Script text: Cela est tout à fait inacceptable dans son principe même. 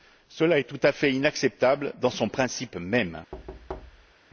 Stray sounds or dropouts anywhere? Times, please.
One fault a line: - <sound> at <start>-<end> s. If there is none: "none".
- thud at 3.3-4.1 s